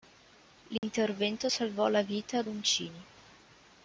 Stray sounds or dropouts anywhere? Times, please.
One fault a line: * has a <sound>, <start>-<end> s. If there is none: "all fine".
* has a dropout, 0.8-0.8 s